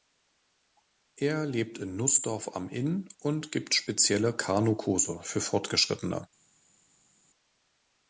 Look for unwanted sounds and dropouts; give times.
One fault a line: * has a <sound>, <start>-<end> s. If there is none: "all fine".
all fine